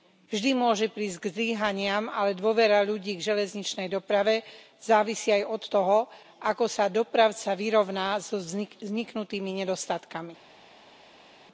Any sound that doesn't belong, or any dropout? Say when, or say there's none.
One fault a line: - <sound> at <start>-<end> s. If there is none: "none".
none